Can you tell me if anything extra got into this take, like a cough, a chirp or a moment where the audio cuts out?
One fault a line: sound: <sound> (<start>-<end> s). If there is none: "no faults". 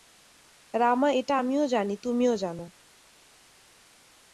no faults